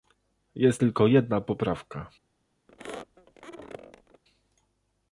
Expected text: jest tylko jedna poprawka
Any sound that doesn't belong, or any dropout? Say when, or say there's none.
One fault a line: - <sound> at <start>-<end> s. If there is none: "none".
- squeak at 2.7-4.2 s